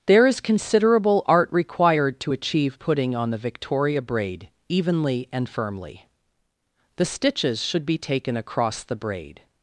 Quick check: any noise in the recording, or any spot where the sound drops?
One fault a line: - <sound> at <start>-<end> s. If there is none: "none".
none